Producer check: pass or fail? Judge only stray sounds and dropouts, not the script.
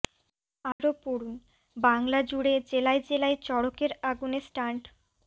fail